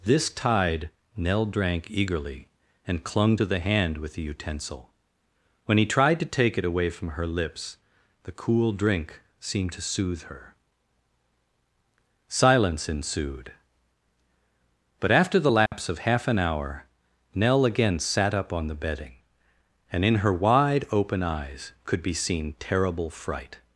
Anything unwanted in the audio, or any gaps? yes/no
yes